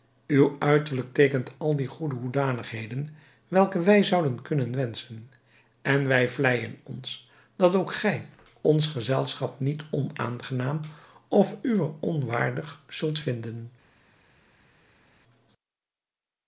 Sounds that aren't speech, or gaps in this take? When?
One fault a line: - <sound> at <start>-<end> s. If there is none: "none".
none